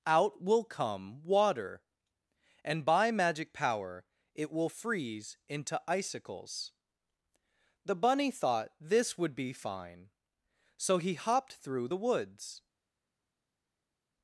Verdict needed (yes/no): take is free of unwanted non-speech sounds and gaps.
yes